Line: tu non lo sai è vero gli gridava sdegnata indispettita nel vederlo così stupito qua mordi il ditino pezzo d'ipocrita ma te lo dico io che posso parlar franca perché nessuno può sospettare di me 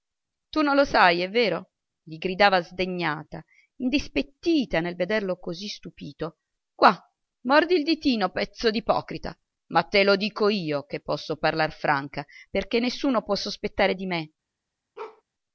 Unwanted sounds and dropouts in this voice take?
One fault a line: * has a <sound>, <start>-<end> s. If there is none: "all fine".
* has a bark, 15.0-15.2 s